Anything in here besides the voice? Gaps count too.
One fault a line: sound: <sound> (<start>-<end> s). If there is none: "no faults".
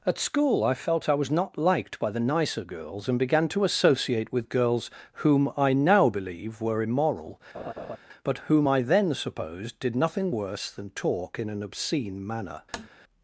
sound: laugh (7.5-8.0 s)
sound: tap (12.7-12.9 s)